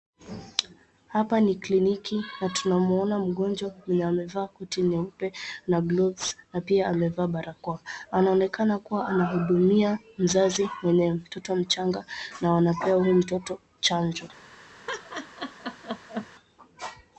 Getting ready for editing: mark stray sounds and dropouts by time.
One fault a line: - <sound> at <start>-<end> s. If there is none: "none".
- laugh at 14.9-16.3 s